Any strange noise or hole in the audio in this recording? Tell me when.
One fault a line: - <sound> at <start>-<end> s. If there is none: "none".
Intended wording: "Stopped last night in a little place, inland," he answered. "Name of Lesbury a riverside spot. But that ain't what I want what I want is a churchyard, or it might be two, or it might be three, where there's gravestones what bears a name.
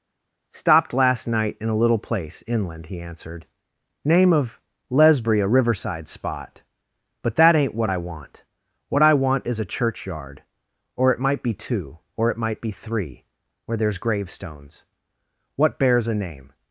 none